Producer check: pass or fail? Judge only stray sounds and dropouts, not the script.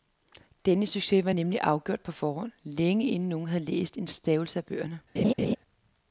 fail